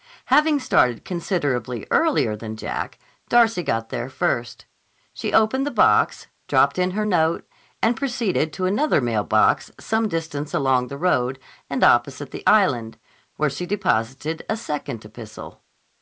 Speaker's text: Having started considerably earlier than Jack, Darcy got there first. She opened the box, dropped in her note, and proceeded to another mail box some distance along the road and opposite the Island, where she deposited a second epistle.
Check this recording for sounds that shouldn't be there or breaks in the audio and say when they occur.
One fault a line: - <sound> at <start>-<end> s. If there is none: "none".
none